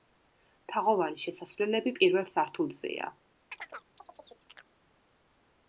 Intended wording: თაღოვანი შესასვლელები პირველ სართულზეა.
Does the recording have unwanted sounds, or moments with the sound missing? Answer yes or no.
yes